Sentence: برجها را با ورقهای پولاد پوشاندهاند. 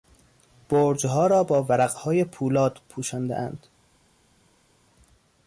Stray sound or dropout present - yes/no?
no